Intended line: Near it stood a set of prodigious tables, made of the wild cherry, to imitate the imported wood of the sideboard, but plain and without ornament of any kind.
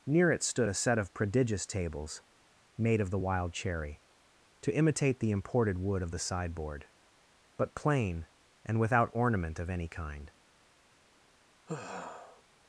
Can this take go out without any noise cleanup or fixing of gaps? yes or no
no